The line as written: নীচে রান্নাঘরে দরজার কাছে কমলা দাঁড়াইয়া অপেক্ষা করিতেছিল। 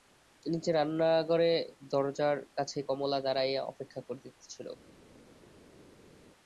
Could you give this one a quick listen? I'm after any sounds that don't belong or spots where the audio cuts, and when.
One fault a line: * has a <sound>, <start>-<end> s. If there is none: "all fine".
all fine